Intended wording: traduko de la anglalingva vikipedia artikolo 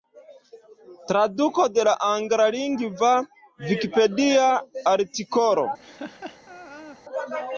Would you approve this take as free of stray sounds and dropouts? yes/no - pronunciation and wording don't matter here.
no